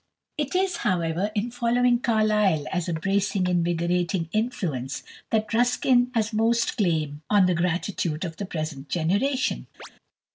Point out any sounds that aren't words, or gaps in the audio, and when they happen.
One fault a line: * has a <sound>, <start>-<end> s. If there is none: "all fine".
* has a chirp, 9.8-9.9 s